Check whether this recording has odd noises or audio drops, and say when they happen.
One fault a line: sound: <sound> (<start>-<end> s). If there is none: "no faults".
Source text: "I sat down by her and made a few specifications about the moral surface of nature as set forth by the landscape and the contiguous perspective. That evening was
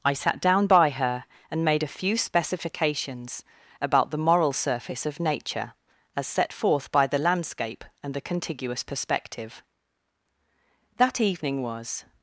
no faults